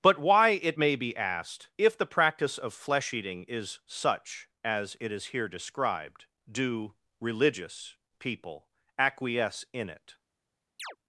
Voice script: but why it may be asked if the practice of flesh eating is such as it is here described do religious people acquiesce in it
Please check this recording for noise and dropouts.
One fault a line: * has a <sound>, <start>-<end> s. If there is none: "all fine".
* has a chirp, 10.8-11.0 s